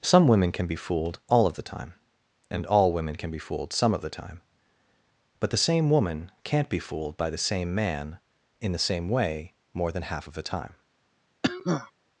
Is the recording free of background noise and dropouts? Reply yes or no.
no